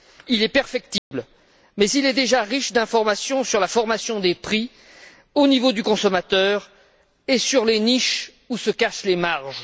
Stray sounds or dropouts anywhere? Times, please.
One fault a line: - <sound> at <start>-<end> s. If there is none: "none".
- dropout at 1.0-1.1 s